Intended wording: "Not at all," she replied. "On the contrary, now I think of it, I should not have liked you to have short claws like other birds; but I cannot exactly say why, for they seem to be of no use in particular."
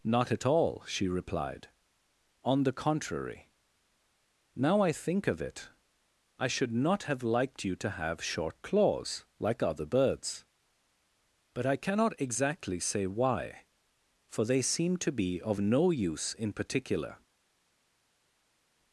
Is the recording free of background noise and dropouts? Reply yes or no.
yes